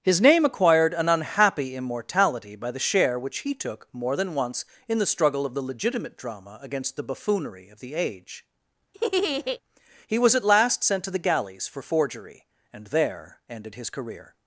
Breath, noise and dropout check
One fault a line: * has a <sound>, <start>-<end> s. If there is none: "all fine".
* has a laugh, 8.9-9.6 s